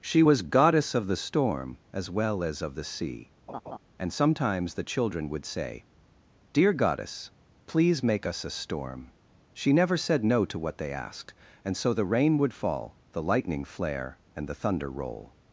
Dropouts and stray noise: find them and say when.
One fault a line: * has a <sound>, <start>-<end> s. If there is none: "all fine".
* has a laugh, 3.5-3.8 s